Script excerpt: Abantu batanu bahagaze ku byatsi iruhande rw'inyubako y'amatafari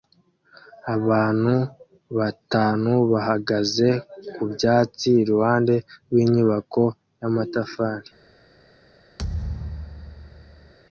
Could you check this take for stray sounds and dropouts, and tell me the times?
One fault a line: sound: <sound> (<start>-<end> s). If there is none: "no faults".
sound: thud (9.2-10.7 s)